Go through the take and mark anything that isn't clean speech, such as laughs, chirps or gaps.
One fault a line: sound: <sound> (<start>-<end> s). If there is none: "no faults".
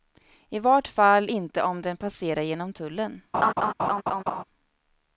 sound: laugh (3.3-4.4 s)